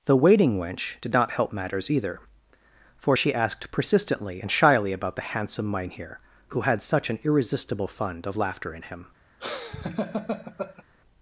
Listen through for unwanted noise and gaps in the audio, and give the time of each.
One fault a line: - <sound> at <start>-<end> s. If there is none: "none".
- laugh at 9.4-10.8 s